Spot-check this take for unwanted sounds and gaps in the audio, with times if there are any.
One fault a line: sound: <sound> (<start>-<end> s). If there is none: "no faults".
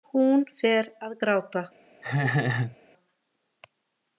sound: laugh (2.0-2.8 s)